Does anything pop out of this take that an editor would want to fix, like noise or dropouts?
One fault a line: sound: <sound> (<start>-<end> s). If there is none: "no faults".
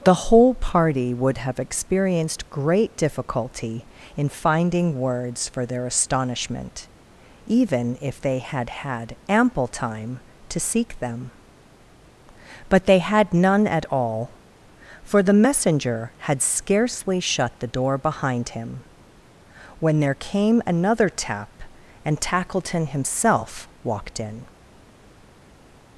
no faults